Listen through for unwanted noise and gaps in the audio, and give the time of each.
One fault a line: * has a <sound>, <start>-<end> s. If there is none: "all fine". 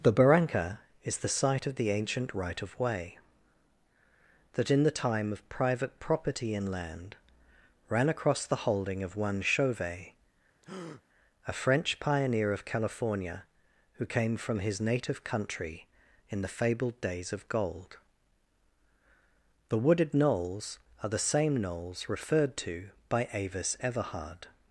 * has a breath, 10.6-11.0 s